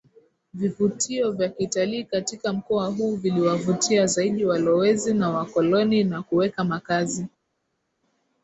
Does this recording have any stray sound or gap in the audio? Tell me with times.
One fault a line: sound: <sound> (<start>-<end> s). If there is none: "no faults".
no faults